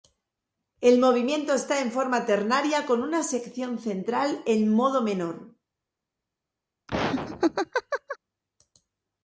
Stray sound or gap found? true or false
true